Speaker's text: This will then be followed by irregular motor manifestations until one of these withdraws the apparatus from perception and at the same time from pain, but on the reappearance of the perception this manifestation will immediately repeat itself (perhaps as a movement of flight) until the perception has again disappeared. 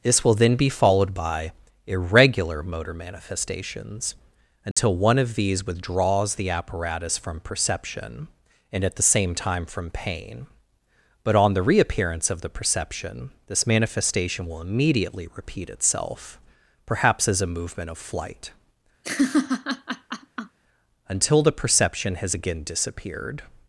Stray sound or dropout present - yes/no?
yes